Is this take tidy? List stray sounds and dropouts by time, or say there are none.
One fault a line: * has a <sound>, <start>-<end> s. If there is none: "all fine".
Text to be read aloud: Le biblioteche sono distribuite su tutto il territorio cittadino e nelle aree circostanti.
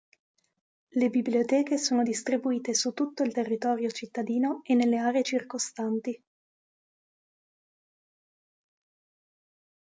all fine